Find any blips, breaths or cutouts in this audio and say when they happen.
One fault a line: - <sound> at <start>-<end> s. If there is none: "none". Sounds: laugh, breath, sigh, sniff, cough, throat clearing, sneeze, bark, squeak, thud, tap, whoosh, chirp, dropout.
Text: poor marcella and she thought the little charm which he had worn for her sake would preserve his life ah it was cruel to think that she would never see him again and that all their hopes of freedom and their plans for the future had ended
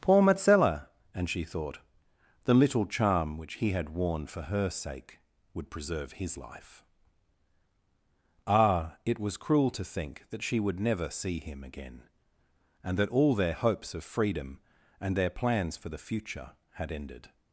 none